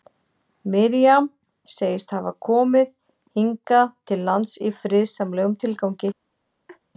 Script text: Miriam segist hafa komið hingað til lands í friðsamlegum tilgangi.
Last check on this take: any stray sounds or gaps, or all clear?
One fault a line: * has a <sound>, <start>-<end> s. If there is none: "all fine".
* has a laugh, 6.7-6.8 s